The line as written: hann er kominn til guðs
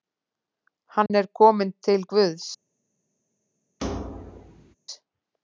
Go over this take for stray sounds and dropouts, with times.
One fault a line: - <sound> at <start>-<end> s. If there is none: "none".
- dropout at 1.1-1.1 s
- thud at 3.8-4.7 s